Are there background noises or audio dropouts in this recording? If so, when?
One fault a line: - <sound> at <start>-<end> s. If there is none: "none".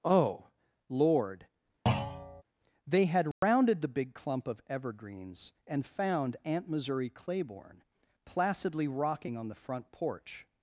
- thud at 1.9-2.4 s
- dropout at 3.3-3.4 s